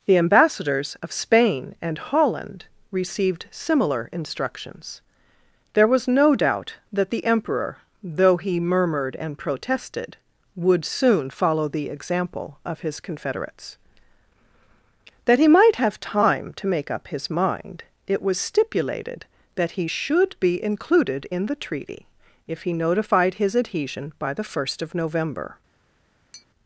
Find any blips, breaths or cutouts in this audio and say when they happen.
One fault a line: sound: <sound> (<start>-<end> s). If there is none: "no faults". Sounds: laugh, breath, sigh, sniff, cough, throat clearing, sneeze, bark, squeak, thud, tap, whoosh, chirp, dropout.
sound: tap (26.3-26.5 s)